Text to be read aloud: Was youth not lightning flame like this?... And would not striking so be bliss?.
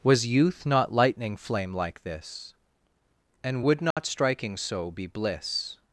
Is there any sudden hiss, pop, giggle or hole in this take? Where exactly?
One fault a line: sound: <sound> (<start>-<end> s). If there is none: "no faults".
sound: dropout (3.9-4.0 s)